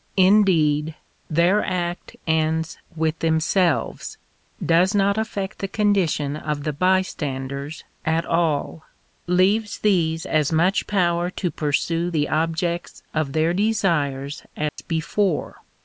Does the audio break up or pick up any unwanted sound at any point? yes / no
yes